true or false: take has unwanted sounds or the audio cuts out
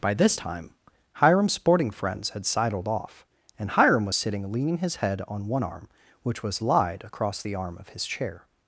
false